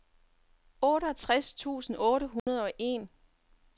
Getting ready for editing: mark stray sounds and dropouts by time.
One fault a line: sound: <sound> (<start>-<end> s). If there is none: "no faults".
sound: dropout (2.4-2.5 s)